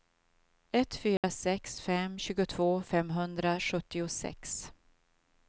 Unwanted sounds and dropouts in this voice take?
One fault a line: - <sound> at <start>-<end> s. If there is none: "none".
- dropout at 1.2-1.2 s